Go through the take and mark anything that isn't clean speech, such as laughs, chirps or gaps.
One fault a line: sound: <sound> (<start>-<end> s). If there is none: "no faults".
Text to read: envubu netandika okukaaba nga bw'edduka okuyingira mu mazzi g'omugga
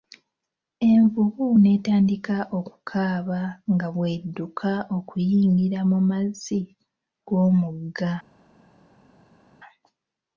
no faults